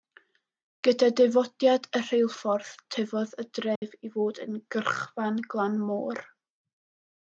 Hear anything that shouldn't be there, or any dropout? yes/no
yes